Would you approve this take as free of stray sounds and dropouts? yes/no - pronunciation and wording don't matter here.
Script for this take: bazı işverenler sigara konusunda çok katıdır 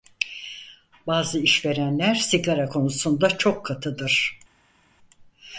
yes